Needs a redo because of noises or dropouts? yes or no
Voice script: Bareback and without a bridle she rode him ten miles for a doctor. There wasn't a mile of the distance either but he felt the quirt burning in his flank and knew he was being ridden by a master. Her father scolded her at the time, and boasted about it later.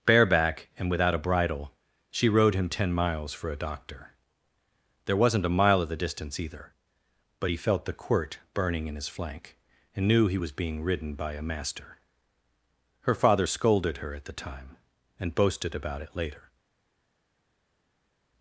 no